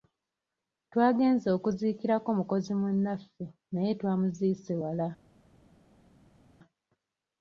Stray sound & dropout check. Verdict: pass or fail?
pass